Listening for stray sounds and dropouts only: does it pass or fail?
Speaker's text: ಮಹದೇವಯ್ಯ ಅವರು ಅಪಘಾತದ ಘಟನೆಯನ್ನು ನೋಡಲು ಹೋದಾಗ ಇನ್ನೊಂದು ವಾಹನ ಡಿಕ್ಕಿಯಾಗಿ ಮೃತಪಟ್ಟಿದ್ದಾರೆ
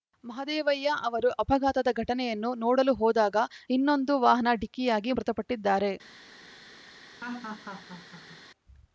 fail